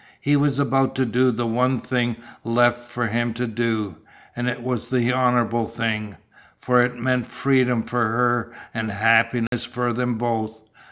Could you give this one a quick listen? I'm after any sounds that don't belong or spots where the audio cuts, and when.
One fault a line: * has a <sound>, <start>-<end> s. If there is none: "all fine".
* has a dropout, 9.5-9.5 s